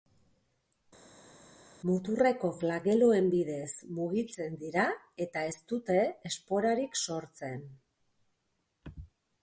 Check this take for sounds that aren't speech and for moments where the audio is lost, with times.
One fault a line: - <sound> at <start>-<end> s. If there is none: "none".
none